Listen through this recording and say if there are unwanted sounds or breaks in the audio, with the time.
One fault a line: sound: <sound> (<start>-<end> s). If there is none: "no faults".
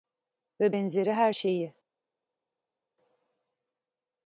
no faults